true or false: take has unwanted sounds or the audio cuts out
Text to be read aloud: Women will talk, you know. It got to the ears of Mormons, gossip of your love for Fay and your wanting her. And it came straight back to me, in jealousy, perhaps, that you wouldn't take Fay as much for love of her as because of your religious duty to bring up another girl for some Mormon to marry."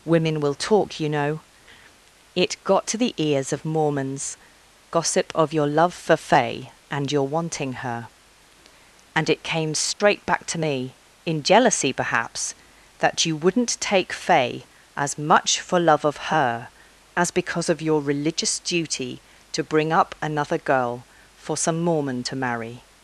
true